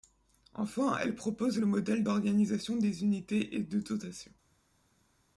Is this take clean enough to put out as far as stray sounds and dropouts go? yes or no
yes